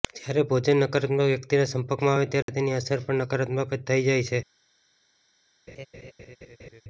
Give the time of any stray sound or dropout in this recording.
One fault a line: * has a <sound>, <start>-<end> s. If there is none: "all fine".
* has a dropout, 2.4-2.5 s
* has a laugh, 5.7-6.8 s